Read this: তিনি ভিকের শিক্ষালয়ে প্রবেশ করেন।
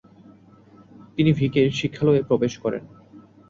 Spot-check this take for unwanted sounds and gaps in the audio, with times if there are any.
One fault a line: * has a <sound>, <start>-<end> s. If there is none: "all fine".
all fine